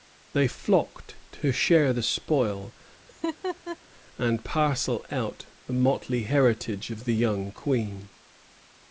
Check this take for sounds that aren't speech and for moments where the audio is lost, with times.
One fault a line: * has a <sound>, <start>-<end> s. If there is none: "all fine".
* has a laugh, 3.1-3.8 s